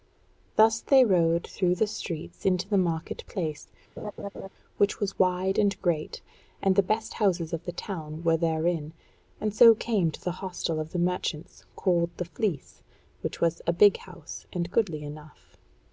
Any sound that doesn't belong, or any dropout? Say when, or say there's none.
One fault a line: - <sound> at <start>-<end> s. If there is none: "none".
- laugh at 4.0-4.5 s